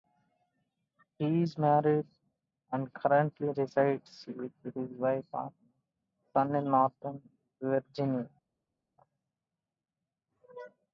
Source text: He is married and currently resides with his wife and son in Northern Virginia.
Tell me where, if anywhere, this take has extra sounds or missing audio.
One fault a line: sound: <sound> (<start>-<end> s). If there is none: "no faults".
no faults